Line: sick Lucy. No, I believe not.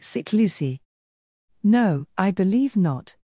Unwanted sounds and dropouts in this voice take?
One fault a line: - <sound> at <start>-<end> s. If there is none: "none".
none